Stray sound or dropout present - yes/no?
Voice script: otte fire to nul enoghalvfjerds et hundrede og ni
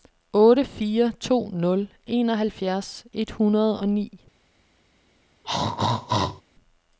yes